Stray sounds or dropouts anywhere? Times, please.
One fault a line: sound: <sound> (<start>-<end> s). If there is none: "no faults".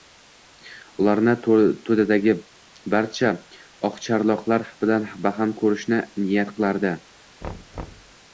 sound: thud (7.4-8.2 s)